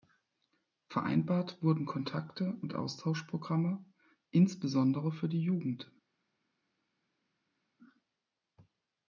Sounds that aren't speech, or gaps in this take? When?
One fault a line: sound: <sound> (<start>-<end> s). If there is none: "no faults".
no faults